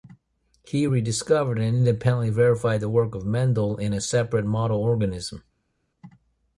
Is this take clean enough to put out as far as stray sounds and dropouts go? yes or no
yes